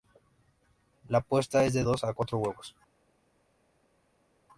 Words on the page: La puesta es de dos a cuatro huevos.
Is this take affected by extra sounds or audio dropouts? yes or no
no